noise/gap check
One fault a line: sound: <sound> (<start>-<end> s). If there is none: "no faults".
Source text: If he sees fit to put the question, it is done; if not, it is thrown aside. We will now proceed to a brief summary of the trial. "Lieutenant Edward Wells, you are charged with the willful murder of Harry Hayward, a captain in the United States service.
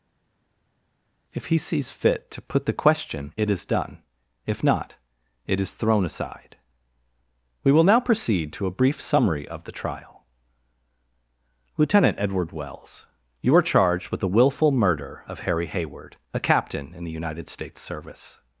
no faults